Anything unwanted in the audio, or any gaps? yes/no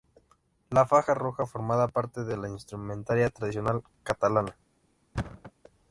yes